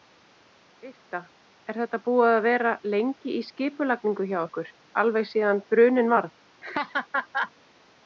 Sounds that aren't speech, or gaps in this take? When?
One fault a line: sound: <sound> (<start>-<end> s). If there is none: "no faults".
sound: laugh (6.6-7.5 s)